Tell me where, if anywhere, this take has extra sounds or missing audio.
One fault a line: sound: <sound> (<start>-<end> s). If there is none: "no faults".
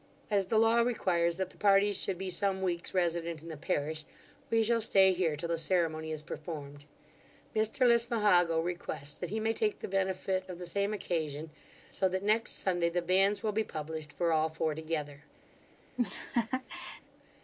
sound: laugh (16.0-17.0 s)